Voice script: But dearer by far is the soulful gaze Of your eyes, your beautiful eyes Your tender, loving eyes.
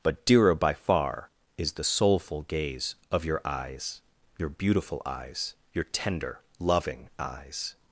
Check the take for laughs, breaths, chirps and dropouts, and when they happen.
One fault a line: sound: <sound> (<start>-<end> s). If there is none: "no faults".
no faults